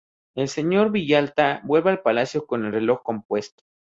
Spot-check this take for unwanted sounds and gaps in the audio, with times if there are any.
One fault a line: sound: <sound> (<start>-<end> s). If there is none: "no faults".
no faults